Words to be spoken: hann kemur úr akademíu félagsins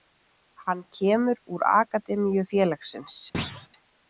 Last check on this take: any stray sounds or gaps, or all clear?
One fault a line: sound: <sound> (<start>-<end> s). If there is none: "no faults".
sound: thud (3.3-3.7 s)